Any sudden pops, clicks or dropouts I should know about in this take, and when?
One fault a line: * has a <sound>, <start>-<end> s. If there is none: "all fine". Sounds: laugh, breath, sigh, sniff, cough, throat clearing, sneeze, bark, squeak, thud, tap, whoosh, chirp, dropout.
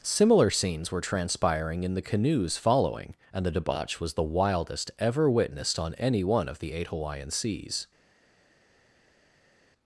all fine